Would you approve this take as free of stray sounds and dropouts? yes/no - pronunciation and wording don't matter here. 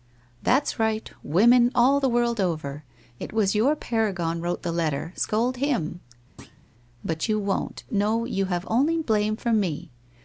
no